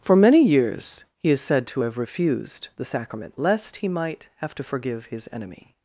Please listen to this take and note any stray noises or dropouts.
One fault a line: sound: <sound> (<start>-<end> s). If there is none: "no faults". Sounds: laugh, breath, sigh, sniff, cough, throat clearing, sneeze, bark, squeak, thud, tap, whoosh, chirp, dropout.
no faults